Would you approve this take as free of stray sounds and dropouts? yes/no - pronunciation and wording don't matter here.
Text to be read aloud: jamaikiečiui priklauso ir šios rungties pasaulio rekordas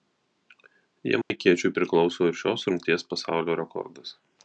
no